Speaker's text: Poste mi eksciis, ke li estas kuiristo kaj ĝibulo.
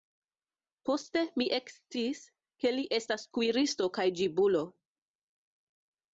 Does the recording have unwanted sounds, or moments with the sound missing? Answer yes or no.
no